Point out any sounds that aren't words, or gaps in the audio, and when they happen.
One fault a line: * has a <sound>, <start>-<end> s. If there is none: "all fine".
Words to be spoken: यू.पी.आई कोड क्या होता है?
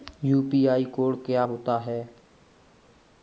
all fine